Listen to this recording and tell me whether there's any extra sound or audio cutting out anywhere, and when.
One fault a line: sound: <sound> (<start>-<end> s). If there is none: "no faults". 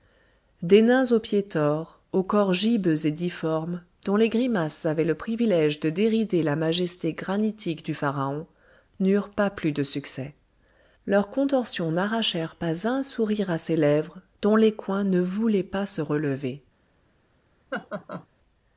sound: laugh (17.7-18.3 s)